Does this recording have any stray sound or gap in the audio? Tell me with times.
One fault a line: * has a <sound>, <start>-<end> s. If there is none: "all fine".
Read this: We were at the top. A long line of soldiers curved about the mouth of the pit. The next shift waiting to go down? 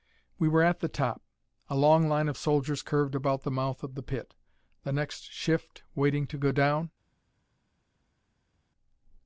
all fine